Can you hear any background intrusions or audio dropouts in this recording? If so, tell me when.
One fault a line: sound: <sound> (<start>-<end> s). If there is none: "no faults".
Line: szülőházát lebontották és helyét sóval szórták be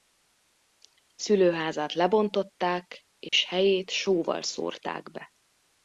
sound: dropout (3.3-3.3 s)